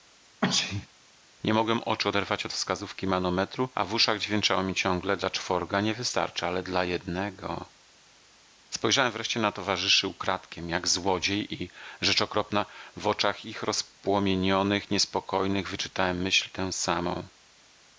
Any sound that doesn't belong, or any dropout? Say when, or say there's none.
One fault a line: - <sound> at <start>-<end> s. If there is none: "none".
- sneeze at 0.4-0.9 s